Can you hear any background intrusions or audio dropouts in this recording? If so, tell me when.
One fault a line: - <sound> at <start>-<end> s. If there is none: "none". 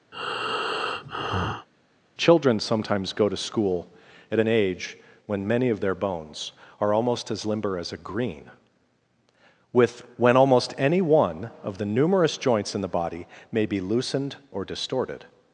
- breath at 0.1-1.7 s